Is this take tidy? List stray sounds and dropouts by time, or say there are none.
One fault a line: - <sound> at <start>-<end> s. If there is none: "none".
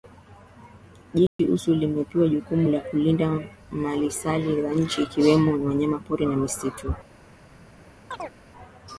- dropout at 1.3-1.4 s
- chirp at 8.1-8.4 s